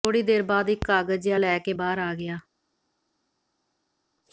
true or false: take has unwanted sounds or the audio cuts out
false